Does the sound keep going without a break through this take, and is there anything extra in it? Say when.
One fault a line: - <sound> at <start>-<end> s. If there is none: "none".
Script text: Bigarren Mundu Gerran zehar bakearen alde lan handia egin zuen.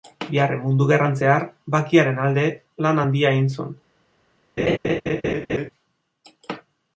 - laugh at 4.6-5.7 s